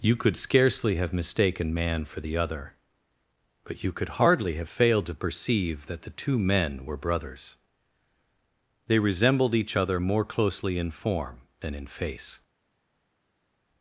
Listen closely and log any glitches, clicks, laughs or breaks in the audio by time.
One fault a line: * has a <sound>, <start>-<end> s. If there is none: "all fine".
all fine